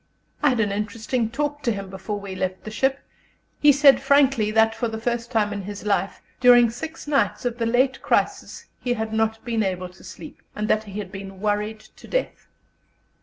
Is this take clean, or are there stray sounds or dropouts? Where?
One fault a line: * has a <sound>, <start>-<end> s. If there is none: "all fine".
all fine